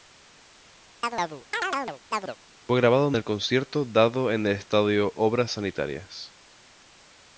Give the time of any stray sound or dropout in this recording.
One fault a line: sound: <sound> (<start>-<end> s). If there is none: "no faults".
sound: chirp (1.0-2.4 s)